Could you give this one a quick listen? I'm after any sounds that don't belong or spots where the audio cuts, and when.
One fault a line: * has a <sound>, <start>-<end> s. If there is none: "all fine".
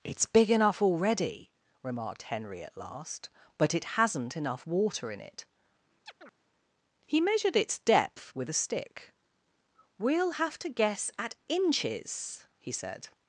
* has a chirp, 6.1-6.4 s